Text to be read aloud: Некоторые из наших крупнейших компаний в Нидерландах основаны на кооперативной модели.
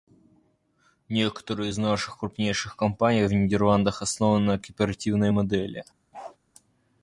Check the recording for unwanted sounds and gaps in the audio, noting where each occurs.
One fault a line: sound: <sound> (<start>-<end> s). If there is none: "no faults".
sound: bark (6.1-6.4 s)